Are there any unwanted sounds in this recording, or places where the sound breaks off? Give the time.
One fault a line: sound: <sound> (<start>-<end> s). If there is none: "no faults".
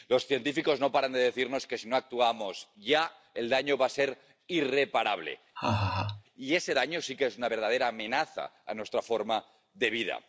sound: laugh (5.6-6.2 s)